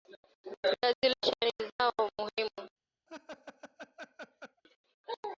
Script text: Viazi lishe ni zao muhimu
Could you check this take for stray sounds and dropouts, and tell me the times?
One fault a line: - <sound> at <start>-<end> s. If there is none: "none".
- laugh at 3.1-4.6 s